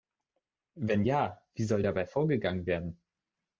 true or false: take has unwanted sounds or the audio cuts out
false